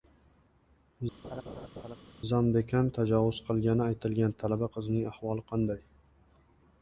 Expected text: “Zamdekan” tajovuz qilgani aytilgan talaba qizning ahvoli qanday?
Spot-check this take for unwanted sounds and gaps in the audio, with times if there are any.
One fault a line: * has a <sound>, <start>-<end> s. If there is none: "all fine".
* has a laugh, 1.2-2.0 s